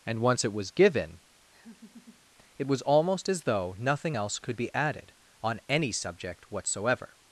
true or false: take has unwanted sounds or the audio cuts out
true